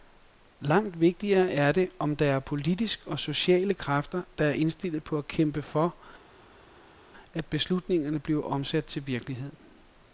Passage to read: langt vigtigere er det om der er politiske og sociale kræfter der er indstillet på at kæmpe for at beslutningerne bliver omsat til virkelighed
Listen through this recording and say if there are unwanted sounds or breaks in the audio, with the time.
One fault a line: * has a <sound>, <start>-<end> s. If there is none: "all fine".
all fine